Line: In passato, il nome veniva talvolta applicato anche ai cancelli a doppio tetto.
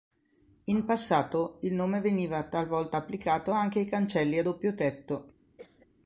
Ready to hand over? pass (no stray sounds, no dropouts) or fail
fail